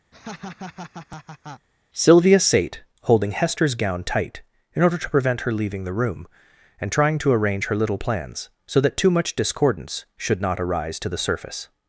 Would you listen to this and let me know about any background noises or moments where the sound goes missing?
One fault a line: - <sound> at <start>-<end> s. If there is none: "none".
- laugh at 0.1-1.7 s